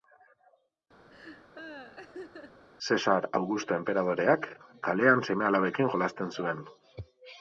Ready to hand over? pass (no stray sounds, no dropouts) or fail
fail